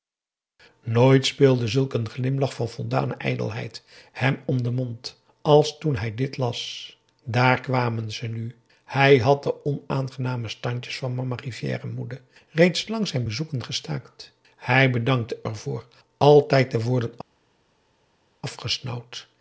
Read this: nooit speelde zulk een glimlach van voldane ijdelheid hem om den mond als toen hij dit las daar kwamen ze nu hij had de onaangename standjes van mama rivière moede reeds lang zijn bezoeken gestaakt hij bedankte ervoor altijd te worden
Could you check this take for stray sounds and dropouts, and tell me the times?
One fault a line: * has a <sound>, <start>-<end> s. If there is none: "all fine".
all fine